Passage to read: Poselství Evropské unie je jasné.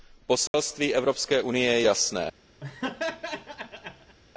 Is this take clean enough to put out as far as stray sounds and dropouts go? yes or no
no